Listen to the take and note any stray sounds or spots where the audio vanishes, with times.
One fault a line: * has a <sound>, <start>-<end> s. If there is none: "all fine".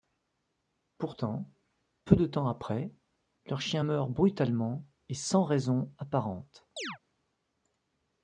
* has a chirp, 6.8-7.0 s